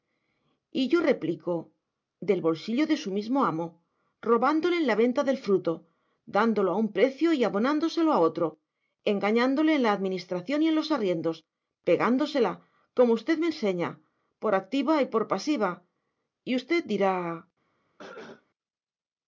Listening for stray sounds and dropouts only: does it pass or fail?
fail